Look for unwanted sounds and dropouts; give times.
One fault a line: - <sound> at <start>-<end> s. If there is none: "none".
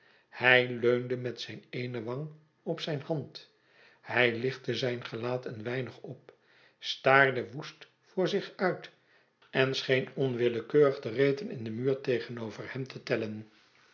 none